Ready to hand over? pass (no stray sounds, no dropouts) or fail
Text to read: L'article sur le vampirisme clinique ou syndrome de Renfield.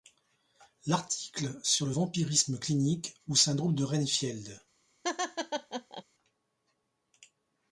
fail